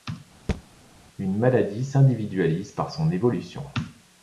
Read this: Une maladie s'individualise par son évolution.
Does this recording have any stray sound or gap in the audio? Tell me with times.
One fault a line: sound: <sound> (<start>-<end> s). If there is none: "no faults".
sound: thud (0.5-0.6 s)